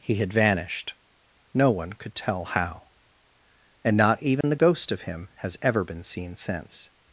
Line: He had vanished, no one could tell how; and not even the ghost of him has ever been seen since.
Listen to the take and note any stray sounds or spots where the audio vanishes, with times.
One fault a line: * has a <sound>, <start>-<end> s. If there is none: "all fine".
* has a dropout, 4.4-4.4 s